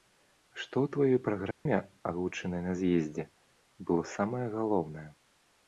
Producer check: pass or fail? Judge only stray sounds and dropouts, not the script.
fail